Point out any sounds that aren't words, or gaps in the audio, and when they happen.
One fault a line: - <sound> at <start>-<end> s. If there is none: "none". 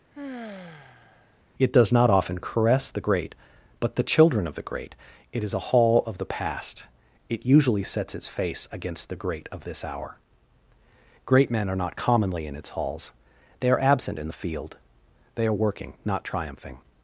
- sigh at 0.1-1.4 s